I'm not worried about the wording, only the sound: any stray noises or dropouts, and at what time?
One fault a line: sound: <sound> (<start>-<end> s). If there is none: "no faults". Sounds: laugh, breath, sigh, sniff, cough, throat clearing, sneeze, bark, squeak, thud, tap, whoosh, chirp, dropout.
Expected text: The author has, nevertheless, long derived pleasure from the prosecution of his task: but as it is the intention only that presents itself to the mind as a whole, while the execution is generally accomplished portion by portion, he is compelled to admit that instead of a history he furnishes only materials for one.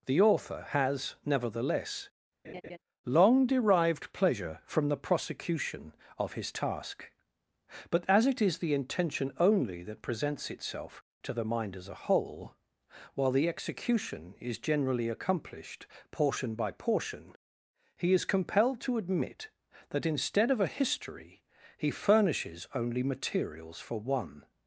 sound: laugh (2.4-2.8 s)